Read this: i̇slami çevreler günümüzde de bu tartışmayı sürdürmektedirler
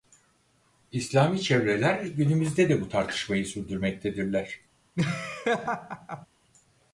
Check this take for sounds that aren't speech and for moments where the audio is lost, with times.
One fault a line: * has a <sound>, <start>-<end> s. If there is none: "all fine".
* has a laugh, 5.0-6.3 s